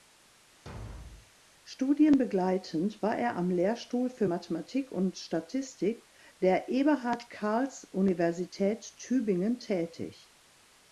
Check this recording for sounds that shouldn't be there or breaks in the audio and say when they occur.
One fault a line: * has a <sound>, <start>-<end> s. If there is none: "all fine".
* has a thud, 0.7-1.3 s